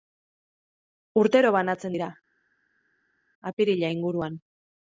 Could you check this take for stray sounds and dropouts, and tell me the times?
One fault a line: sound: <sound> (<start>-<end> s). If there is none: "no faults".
no faults